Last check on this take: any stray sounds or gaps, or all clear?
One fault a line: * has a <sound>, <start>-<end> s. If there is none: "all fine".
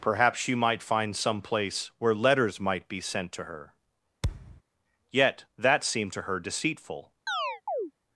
* has a thud, 4.2-4.6 s
* has a chirp, 7.3-7.9 s